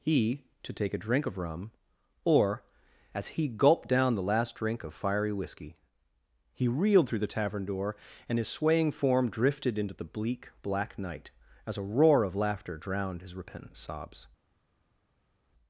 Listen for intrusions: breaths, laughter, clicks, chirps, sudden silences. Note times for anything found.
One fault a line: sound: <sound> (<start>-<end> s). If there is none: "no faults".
no faults